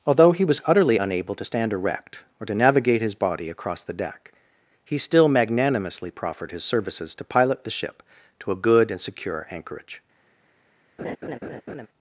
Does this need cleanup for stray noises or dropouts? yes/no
yes